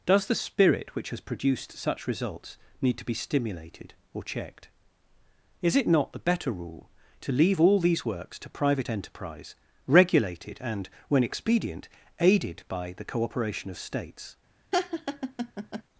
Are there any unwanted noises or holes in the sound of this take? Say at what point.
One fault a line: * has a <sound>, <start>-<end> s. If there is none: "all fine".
* has a laugh, 14.7-15.8 s